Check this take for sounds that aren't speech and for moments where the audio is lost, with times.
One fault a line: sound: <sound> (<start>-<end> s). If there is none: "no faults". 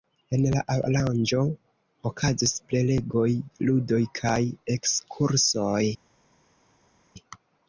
no faults